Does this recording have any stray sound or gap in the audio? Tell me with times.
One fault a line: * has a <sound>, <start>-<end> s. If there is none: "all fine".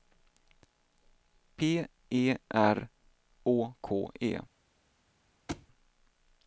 * has a thud, 5.5-5.7 s